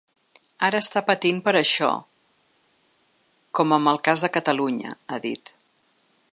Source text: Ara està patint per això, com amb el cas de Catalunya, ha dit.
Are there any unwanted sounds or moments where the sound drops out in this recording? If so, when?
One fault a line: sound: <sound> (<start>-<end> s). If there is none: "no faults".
no faults